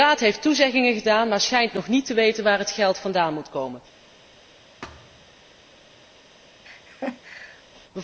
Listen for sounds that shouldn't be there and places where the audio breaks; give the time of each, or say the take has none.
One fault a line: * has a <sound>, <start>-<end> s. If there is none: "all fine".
* has a thud, 4.8-5.4 s
* has a laugh, 6.6-7.6 s